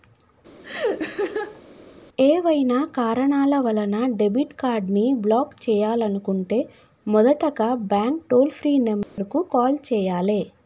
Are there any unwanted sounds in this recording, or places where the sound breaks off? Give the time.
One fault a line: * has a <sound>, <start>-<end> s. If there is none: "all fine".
* has a laugh, 0.6-1.6 s
* has a dropout, 9.0-9.2 s